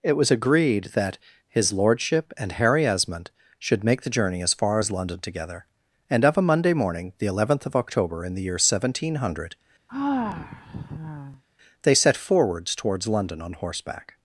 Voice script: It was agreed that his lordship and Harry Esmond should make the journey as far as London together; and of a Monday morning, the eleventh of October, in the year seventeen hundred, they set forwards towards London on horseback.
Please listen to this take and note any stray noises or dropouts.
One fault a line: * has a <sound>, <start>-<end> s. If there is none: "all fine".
* has a sigh, 9.9-11.4 s